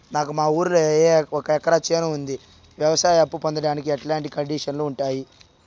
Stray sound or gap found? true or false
false